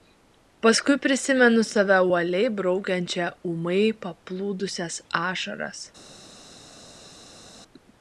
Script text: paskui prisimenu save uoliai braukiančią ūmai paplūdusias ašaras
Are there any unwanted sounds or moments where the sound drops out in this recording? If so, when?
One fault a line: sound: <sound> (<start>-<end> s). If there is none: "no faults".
no faults